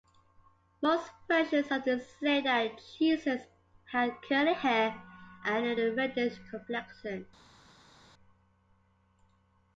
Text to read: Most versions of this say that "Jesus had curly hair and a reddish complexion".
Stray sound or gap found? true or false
false